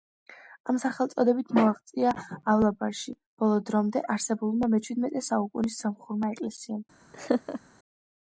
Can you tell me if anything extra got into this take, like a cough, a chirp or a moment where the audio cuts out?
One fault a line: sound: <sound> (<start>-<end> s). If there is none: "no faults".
sound: laugh (7.1-7.6 s)